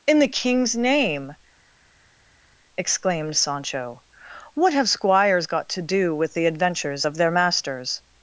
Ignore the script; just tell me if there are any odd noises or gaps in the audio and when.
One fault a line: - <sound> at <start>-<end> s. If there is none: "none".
none